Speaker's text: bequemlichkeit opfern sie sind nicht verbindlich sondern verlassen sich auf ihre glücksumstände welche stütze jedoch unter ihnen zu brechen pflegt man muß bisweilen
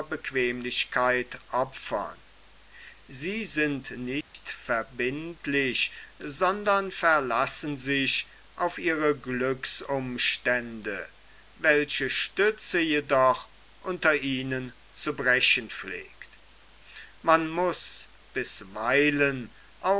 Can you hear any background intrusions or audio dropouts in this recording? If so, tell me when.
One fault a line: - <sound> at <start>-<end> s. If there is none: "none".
- dropout at 4.2-4.3 s